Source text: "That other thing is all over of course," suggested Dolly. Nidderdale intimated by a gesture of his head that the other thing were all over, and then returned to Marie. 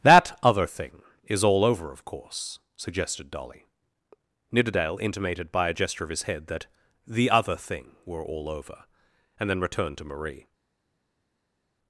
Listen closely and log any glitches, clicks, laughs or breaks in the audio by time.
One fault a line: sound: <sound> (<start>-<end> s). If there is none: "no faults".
no faults